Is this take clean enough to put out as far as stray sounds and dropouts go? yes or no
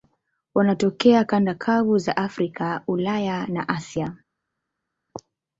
yes